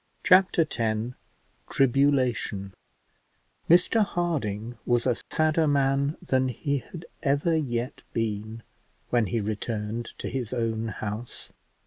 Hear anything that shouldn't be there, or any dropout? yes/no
yes